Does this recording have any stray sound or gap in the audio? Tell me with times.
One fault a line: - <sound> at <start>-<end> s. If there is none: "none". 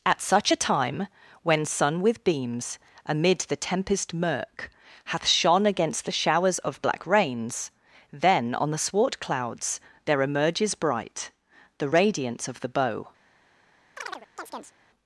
- chirp at 14.0-14.8 s